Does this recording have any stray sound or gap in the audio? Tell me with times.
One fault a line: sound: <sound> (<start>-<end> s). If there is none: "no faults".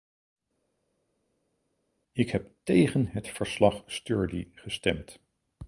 no faults